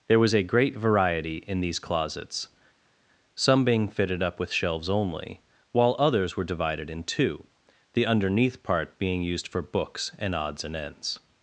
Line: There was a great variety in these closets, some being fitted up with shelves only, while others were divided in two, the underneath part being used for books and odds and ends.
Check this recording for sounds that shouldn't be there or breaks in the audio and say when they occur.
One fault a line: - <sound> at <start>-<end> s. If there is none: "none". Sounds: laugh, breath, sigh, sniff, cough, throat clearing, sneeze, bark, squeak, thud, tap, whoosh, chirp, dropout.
none